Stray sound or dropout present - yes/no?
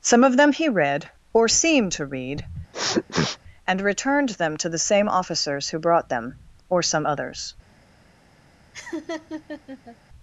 yes